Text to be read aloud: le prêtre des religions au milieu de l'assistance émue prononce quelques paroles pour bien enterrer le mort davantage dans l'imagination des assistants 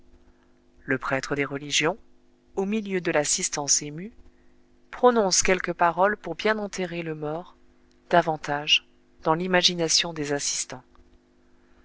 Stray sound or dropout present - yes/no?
no